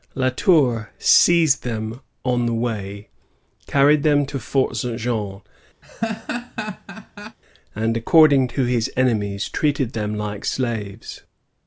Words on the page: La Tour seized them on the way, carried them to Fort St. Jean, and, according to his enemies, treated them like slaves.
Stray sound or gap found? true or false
true